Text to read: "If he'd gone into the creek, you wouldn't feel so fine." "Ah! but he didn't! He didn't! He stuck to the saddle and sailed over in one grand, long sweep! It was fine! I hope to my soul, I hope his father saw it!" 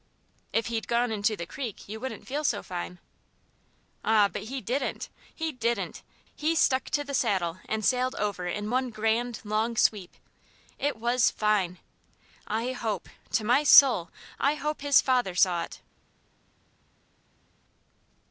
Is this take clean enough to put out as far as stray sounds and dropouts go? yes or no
yes